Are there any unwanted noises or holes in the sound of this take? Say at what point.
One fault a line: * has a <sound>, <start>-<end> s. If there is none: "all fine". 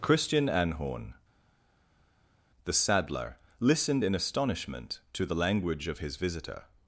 all fine